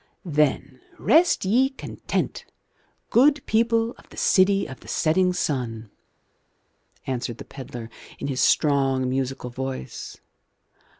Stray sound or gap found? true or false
false